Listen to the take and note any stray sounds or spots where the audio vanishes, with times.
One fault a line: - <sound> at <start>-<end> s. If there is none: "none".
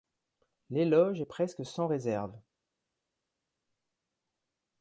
none